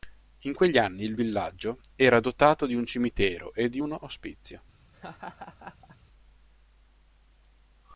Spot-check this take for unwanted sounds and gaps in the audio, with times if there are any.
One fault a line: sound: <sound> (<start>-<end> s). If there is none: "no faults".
sound: laugh (4.9-6.0 s)